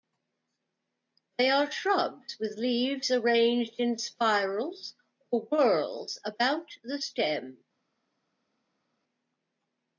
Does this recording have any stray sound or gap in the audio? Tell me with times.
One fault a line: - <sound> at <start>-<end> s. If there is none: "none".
none